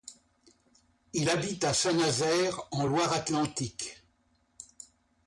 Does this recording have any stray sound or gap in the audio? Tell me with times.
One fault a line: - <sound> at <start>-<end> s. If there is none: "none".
none